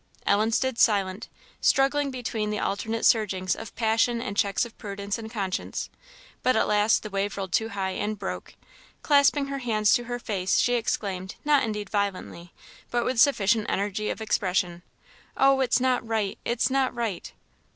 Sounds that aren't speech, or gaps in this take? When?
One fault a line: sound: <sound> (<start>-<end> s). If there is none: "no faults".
no faults